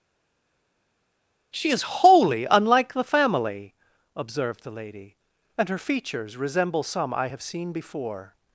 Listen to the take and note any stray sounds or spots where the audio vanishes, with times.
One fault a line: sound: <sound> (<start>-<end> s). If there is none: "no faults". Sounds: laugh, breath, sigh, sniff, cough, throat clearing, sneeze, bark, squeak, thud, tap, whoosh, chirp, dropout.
no faults